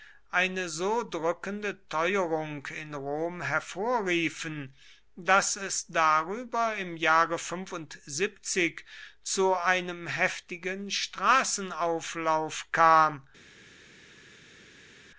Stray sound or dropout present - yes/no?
no